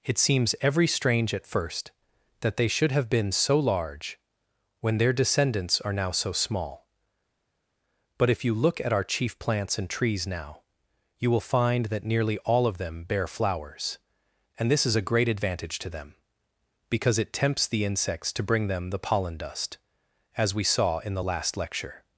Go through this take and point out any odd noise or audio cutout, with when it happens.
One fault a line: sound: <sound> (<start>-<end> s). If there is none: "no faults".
no faults